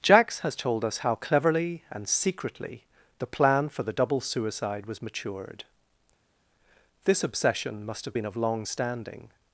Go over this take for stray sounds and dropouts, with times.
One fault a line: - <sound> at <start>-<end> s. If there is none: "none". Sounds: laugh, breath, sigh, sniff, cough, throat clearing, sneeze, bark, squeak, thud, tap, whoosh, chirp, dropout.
none